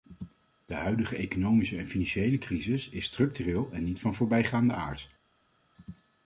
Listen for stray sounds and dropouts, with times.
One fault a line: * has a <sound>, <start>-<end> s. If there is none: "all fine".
all fine